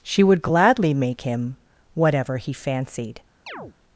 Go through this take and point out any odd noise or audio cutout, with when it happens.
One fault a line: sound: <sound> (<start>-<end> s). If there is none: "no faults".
sound: chirp (3.5-3.8 s)